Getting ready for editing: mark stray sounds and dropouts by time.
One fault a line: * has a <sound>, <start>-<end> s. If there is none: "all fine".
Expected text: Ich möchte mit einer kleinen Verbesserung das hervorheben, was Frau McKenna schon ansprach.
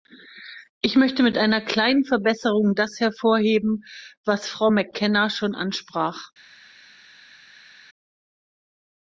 all fine